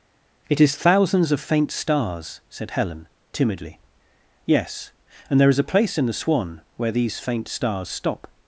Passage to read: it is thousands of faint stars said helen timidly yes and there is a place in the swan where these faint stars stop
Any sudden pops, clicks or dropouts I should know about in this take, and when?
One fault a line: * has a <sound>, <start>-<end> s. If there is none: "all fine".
all fine